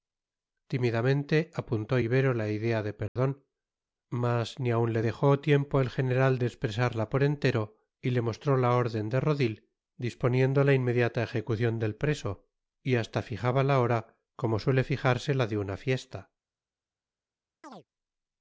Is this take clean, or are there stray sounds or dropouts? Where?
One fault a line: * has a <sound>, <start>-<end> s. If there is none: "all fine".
* has a dropout, 3.1-3.2 s
* has a chirp, 17.6-17.9 s